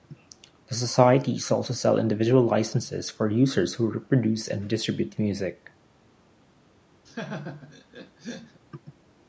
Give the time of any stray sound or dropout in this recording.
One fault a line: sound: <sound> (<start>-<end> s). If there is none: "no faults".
sound: laugh (7.1-8.6 s)